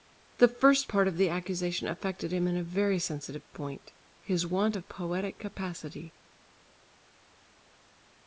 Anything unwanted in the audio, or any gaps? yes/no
no